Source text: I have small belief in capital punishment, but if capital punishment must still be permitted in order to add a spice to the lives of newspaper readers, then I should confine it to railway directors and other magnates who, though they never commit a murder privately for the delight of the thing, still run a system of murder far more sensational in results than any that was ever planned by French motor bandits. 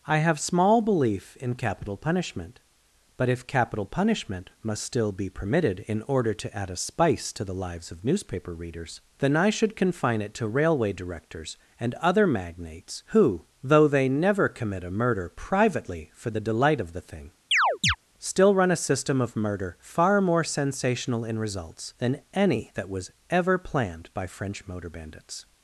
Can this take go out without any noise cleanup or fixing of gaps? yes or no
no